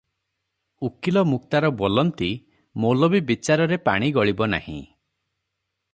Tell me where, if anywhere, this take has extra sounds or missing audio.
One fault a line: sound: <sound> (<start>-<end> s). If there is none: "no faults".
no faults